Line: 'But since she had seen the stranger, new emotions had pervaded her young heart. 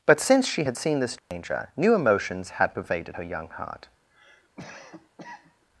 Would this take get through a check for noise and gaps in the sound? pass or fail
fail